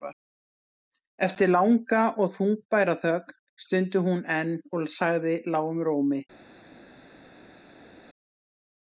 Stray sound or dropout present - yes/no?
no